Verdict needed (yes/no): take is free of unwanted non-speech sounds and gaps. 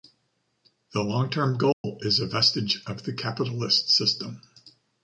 no